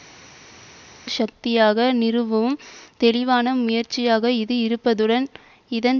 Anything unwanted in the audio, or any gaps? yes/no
no